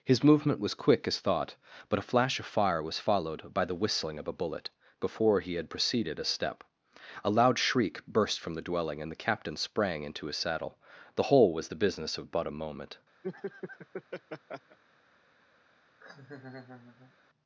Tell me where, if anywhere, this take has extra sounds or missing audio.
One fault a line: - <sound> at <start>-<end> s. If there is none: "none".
- laugh at 13.2-14.8 s
- laugh at 16.0-17.2 s